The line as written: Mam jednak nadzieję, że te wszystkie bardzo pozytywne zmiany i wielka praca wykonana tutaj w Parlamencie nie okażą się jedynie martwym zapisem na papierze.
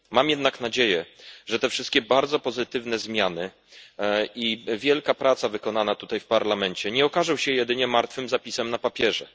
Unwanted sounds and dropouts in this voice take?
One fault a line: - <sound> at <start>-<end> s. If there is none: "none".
none